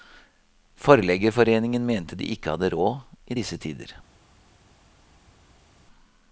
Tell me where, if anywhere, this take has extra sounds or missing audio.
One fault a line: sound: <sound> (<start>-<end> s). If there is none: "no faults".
no faults